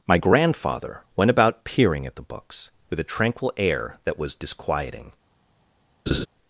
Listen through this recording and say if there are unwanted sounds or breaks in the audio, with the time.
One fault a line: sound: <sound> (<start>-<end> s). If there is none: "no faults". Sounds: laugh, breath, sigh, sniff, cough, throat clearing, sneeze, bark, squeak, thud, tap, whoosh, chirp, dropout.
sound: laugh (6.1-6.3 s)